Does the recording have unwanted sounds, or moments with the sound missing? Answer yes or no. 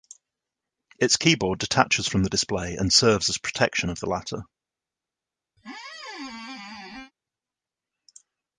yes